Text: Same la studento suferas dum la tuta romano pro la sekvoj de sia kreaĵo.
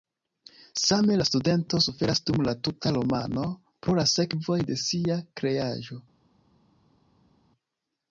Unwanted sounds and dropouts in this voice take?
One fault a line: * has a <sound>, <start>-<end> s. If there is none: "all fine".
all fine